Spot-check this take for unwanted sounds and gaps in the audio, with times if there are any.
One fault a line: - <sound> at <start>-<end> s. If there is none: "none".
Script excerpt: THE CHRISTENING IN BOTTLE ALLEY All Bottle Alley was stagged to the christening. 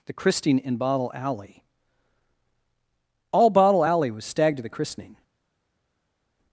none